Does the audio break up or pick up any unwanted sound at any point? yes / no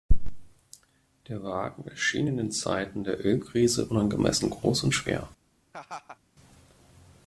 yes